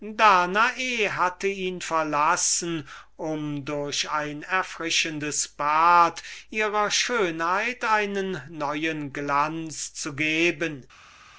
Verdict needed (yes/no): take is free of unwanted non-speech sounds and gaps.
yes